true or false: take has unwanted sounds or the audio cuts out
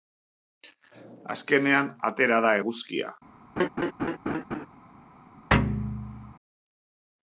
true